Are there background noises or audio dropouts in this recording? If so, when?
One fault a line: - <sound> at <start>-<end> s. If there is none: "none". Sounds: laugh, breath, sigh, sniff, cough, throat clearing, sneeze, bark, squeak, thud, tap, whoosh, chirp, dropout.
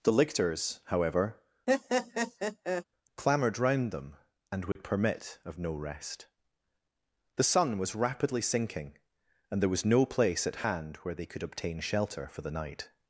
- laugh at 1.7-2.8 s
- dropout at 4.7-4.8 s